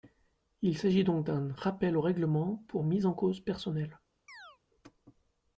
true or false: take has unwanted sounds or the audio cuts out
true